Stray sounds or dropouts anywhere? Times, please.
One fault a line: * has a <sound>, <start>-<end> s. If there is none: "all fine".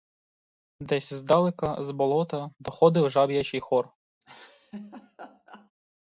* has a laugh, 4.2-5.7 s